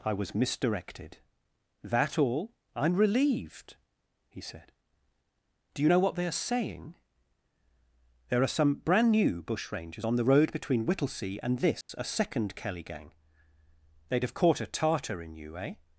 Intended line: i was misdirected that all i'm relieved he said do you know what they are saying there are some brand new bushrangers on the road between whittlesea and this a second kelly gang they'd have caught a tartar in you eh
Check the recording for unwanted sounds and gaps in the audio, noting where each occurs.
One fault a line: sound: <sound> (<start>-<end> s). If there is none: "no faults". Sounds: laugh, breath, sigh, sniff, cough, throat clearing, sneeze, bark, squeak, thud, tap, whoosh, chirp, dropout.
sound: dropout (11.8-11.9 s)